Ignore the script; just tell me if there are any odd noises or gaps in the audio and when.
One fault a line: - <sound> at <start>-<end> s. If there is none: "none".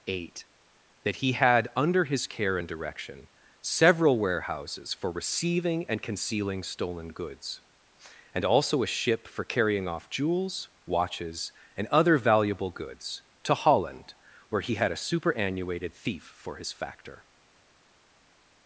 none